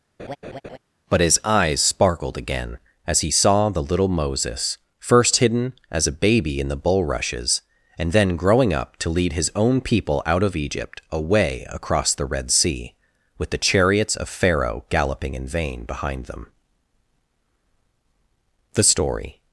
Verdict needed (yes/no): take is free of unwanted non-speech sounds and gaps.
no